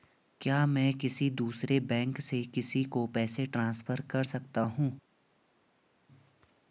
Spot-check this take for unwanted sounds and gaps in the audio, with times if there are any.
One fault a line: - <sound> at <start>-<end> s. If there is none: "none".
none